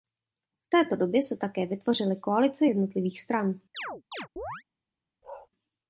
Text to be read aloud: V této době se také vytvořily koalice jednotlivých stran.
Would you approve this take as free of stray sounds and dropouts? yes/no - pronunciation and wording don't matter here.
no